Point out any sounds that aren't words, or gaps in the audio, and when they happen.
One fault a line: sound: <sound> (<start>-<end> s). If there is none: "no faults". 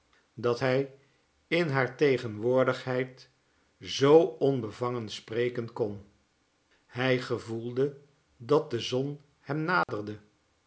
sound: dropout (9.8-9.9 s)